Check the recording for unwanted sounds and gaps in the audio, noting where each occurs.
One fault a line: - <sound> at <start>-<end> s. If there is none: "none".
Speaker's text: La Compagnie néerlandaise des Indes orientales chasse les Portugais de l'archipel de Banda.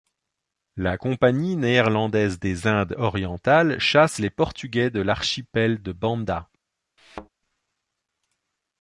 - thud at 7.0-7.3 s